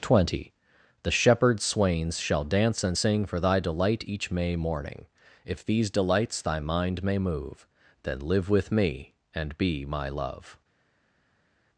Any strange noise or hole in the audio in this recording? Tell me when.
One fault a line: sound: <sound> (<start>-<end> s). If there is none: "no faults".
no faults